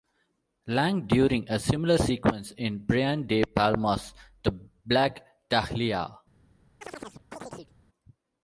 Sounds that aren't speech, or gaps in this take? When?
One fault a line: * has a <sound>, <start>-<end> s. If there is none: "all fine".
* has a chirp, 6.8-7.7 s